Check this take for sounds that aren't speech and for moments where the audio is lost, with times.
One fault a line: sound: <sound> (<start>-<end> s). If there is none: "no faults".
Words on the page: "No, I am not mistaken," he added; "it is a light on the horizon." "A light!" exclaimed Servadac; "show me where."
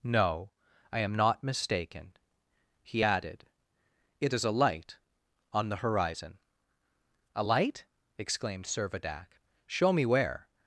no faults